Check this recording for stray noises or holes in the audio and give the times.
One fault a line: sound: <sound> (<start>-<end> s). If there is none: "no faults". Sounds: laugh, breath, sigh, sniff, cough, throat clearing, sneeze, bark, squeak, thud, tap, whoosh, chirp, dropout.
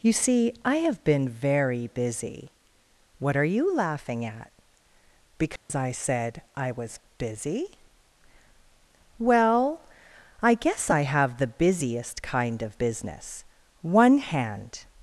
sound: dropout (5.6-5.7 s)